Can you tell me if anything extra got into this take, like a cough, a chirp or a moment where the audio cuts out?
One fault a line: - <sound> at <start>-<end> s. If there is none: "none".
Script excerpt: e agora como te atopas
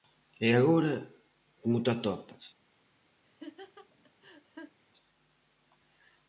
- laugh at 3.2-4.8 s